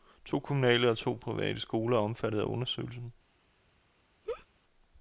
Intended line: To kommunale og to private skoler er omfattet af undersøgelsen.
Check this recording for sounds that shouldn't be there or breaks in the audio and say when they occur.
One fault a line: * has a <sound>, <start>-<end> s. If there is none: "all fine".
* has a laugh, 4.2-4.5 s